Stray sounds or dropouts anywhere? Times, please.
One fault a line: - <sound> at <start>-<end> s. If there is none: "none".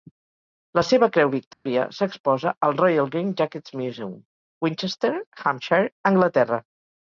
- dropout at 1.5-1.7 s